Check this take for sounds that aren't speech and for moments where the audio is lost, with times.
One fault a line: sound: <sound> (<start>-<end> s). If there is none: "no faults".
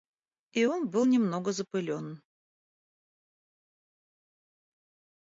no faults